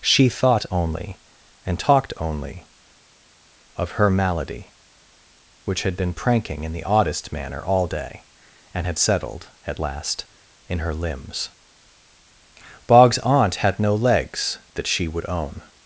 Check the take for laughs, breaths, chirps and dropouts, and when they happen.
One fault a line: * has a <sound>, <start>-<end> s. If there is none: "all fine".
all fine